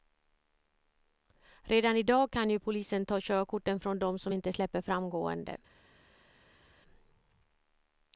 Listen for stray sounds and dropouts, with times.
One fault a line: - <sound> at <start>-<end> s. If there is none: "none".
none